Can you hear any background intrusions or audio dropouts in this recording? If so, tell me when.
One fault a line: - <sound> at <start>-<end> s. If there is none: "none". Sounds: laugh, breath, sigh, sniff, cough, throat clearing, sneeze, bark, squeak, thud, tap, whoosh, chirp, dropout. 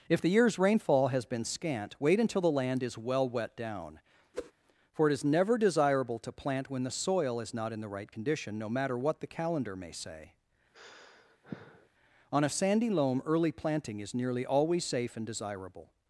- whoosh at 4.3-4.5 s
- sigh at 10.7-11.9 s